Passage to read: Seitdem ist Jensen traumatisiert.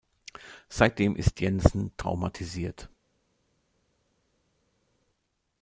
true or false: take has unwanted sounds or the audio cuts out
false